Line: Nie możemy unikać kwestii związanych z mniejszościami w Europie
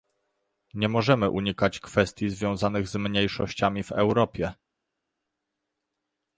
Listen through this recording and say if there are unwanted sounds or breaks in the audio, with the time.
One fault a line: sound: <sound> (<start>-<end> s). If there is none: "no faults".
no faults